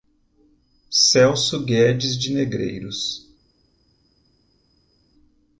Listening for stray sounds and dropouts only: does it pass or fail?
pass